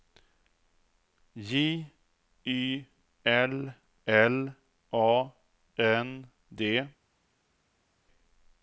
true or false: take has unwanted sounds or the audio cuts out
false